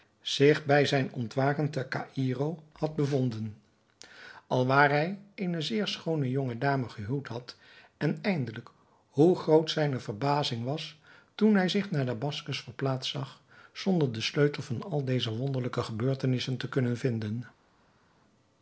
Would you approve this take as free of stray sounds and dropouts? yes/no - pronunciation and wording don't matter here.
yes